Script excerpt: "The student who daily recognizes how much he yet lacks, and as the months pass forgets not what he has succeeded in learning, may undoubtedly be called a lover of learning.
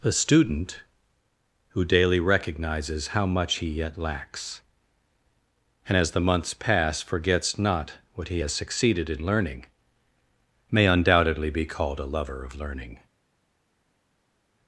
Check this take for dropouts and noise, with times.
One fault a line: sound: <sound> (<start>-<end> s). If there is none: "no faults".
no faults